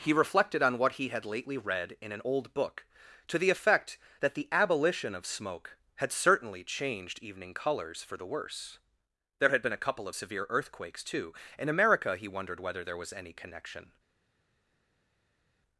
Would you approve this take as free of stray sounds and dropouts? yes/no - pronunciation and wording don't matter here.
yes